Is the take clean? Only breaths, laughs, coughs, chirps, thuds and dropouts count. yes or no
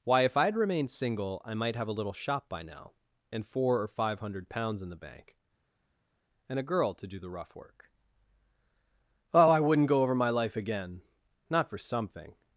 yes